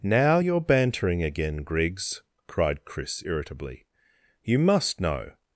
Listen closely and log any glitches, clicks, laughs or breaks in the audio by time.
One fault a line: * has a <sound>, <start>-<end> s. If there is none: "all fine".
all fine